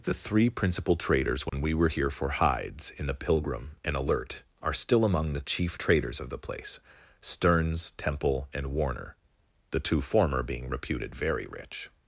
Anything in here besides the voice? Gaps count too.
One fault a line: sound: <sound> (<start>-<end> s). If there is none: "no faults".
sound: dropout (1.5-1.5 s)